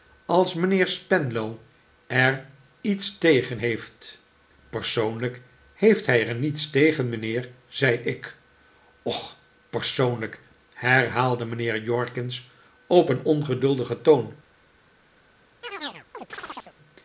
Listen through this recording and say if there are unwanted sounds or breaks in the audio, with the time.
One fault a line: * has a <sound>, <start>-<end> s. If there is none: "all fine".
* has a chirp, 15.6-16.8 s